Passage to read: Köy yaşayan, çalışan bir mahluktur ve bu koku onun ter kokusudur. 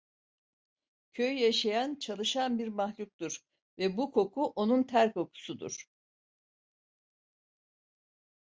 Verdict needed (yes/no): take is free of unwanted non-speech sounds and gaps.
yes